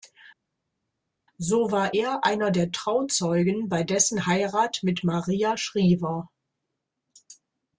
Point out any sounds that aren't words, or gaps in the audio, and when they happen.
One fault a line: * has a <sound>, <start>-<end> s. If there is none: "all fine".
all fine